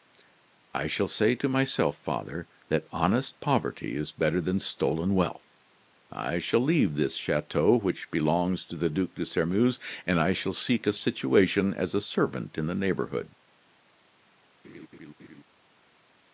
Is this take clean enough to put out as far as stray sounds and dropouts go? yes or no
no